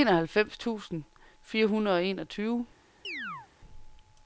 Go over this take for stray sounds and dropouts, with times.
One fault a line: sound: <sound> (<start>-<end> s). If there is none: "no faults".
sound: chirp (3.0-3.5 s)